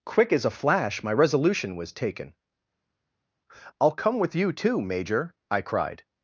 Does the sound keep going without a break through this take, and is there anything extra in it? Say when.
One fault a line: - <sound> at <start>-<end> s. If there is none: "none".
none